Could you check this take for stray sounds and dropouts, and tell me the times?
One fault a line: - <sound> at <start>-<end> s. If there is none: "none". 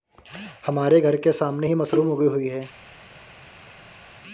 none